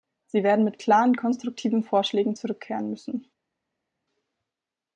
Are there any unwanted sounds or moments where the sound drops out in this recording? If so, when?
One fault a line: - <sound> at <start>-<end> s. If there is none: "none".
none